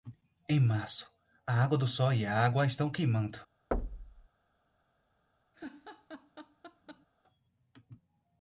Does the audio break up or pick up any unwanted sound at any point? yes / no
yes